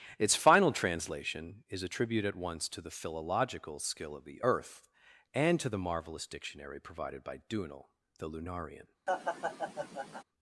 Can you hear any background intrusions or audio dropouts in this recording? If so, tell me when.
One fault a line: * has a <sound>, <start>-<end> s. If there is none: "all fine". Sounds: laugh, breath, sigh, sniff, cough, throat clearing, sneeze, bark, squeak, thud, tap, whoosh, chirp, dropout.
* has a laugh, 9.1-10.2 s